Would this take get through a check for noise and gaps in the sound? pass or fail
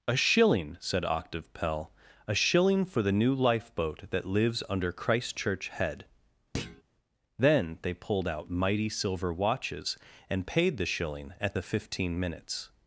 fail